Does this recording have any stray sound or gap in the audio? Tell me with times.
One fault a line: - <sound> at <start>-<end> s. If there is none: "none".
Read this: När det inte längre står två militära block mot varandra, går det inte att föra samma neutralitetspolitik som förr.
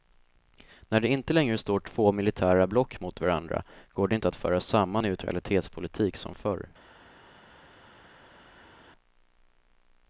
none